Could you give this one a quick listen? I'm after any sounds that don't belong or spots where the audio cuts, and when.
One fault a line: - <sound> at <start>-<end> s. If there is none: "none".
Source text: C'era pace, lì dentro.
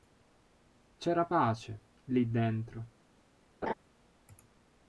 - laugh at 3.6-3.7 s